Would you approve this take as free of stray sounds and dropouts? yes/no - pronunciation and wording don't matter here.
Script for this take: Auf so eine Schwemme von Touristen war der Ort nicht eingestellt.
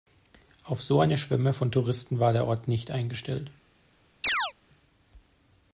no